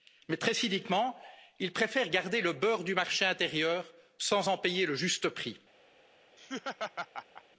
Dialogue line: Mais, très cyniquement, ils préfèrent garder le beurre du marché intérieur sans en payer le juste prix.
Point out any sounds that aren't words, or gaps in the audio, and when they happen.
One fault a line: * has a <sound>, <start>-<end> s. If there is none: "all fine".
* has a laugh, 6.4-7.4 s